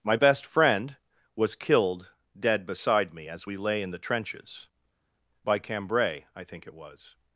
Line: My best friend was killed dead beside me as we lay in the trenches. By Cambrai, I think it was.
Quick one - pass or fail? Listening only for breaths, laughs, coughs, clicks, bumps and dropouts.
pass